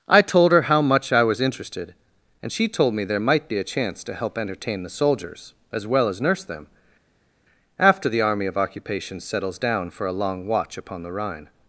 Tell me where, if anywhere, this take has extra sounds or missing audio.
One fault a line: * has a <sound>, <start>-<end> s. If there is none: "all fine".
all fine